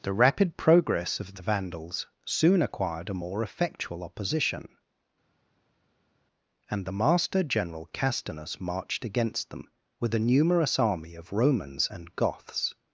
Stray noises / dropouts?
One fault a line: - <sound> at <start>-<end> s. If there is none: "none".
none